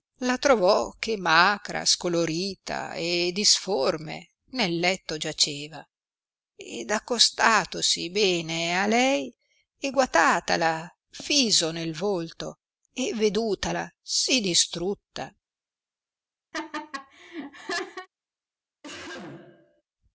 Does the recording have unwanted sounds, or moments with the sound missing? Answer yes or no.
yes